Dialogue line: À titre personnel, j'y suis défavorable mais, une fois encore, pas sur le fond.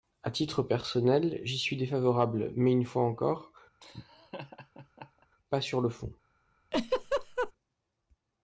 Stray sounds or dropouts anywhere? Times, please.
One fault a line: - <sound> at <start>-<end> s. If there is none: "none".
- laugh at 3.8-5.3 s
- laugh at 6.7-7.5 s